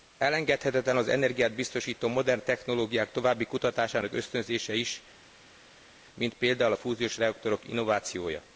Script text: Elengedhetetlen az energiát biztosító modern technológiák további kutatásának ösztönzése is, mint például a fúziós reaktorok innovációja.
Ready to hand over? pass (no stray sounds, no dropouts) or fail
pass